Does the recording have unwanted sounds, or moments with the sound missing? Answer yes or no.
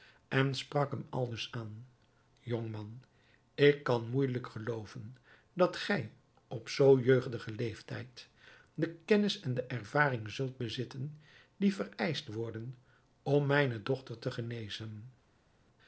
no